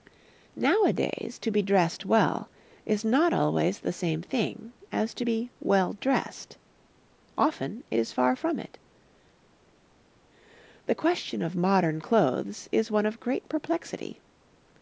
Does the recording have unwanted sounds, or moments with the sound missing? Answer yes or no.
no